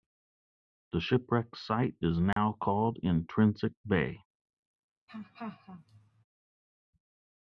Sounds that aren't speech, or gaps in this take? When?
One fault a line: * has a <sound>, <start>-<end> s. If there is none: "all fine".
* has a dropout, 2.3-2.4 s
* has a laugh, 5.1-6.2 s